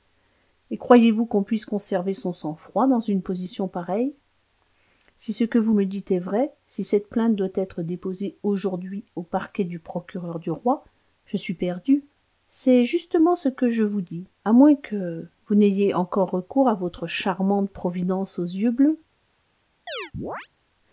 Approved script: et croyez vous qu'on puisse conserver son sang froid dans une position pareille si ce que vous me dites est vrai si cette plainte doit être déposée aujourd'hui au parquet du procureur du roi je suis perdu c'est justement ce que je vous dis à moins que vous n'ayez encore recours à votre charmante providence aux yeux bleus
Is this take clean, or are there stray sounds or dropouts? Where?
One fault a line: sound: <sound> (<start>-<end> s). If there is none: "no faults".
sound: chirp (19.9-20.5 s)